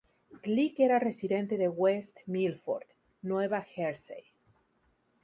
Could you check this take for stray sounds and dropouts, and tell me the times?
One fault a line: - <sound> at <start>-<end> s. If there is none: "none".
none